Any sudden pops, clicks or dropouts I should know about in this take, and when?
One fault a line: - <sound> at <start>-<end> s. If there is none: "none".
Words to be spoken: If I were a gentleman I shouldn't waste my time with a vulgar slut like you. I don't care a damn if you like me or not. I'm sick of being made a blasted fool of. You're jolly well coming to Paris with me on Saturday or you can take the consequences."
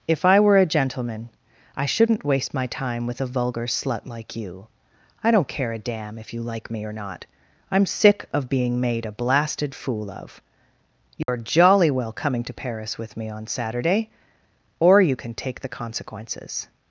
- dropout at 11.2-11.3 s